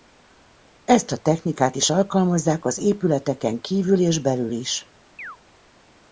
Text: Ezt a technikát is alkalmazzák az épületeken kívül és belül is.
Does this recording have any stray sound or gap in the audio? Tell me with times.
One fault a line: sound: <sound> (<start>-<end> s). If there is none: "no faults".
sound: chirp (5.2-5.4 s)